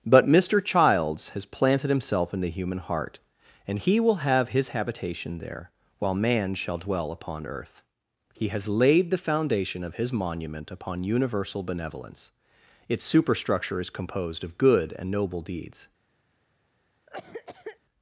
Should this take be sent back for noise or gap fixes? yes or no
yes